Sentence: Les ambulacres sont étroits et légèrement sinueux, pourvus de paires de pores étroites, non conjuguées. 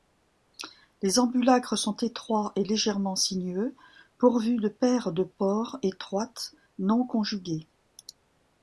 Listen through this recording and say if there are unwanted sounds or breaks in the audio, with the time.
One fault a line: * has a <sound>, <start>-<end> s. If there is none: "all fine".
all fine